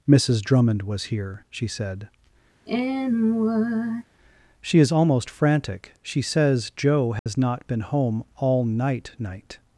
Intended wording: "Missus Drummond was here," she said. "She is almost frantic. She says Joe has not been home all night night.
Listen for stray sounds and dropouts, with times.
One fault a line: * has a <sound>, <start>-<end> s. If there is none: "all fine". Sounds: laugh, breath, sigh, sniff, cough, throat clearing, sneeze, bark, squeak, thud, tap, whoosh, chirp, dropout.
* has a sigh, 2.7-4.0 s
* has a dropout, 7.2-7.3 s